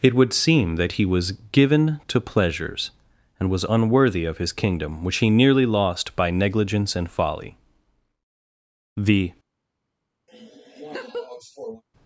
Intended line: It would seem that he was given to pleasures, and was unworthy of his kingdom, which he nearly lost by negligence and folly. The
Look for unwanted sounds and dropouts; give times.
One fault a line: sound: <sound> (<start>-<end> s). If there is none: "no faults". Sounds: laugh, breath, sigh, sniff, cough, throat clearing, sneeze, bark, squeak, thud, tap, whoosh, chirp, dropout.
sound: laugh (10.3-11.8 s)